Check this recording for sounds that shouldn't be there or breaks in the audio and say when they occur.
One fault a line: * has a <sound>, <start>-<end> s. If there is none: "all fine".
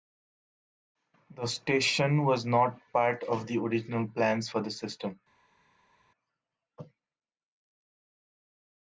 all fine